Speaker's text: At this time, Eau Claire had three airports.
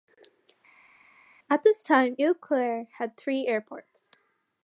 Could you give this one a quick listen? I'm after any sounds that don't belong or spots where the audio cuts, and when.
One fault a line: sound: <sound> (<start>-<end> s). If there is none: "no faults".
no faults